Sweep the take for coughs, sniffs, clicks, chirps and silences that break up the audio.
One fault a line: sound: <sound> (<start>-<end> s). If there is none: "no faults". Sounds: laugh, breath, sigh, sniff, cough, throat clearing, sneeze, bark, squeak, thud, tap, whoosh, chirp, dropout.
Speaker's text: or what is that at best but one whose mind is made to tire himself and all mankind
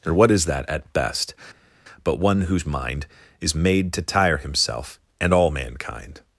no faults